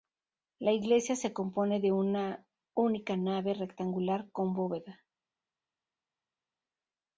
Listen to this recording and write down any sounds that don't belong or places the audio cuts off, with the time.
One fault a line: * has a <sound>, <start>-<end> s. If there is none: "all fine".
all fine